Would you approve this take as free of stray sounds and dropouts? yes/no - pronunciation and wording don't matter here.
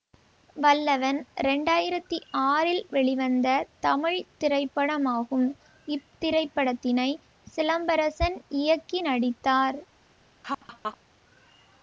no